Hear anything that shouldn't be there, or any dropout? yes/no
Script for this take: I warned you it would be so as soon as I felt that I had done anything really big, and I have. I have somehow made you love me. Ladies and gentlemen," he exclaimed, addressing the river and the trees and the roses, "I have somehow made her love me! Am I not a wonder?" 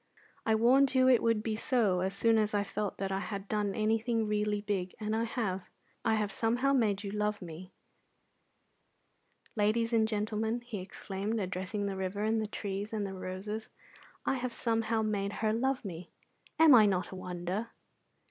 no